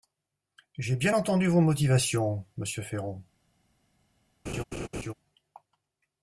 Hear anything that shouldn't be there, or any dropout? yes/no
yes